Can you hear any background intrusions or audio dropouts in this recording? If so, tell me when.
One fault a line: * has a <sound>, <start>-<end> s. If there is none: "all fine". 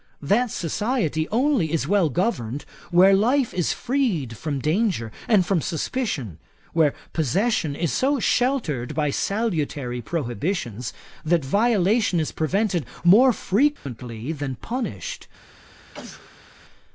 * has a dropout, 13.8-13.9 s
* has a sneeze, 15.9-16.6 s